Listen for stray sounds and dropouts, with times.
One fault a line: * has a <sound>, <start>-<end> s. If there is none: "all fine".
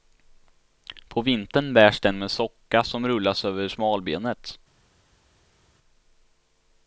all fine